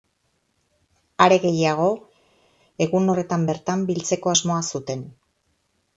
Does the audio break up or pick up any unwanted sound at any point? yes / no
no